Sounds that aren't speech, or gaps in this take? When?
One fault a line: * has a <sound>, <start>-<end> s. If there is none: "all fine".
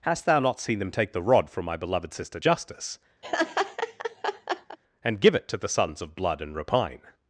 * has a laugh, 3.2-4.8 s